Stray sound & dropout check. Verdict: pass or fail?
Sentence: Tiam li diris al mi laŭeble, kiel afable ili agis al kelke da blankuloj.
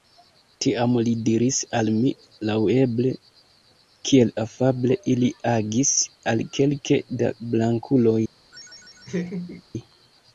fail